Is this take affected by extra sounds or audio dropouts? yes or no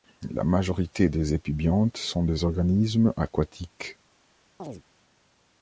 yes